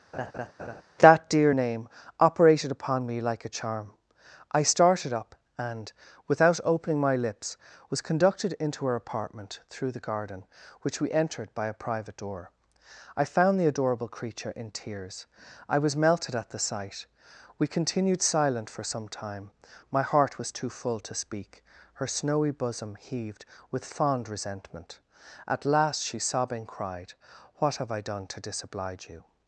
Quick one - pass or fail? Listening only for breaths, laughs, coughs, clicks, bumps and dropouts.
fail